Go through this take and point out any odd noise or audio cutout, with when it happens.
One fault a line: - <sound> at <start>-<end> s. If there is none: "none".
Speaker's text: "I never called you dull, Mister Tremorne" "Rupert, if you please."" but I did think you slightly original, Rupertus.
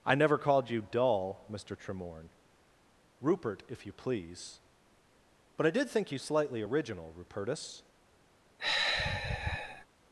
- sigh at 8.6-9.9 s